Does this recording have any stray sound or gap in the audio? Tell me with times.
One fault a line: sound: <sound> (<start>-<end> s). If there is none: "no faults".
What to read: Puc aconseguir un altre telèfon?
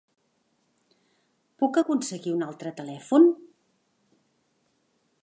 no faults